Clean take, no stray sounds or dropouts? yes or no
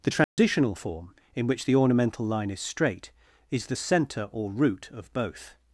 no